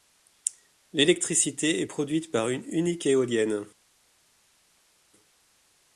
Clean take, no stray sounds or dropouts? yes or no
yes